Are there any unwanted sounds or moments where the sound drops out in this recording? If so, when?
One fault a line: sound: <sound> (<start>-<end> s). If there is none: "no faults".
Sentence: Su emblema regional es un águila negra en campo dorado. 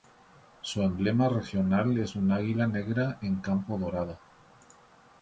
no faults